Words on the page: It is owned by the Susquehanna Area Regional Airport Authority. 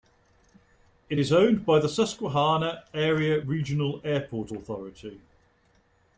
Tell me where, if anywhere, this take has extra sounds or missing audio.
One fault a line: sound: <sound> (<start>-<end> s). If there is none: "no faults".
no faults